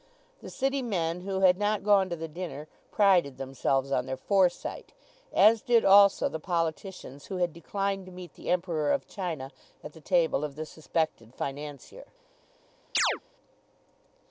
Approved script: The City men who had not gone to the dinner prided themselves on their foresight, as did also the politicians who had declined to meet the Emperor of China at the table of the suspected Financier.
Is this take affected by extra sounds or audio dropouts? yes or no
yes